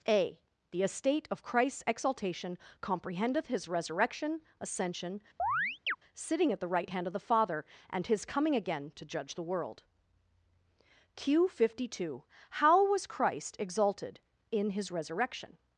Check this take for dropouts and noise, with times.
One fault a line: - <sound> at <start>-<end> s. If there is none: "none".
- chirp at 5.4-6.0 s